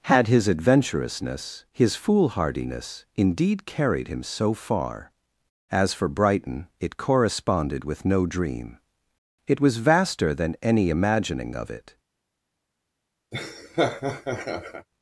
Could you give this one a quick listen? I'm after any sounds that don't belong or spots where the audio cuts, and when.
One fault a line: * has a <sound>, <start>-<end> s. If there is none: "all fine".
* has a laugh, 13.3-14.9 s